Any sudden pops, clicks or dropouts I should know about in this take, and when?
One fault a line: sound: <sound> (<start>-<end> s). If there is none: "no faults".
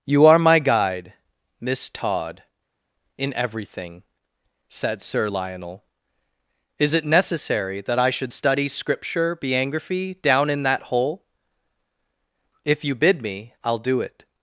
no faults